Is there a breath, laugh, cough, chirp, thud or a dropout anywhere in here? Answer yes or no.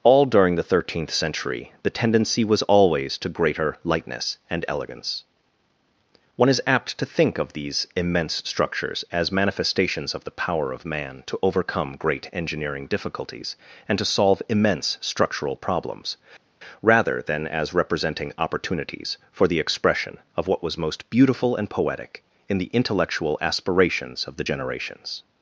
no